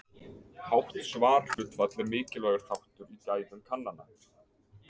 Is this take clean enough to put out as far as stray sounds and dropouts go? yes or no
no